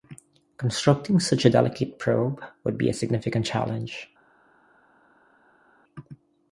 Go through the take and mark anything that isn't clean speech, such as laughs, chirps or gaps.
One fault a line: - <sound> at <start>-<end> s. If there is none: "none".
none